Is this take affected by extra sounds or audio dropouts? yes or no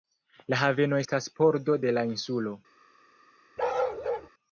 yes